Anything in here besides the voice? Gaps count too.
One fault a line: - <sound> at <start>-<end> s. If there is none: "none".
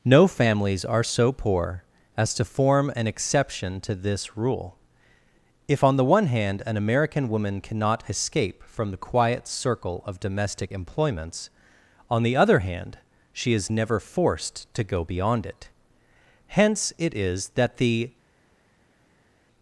none